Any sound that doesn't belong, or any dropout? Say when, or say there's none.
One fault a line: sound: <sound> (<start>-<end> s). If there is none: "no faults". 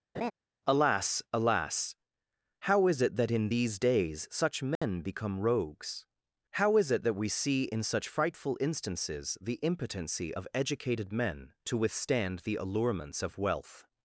sound: laugh (0.1-0.3 s)
sound: dropout (4.8-4.8 s)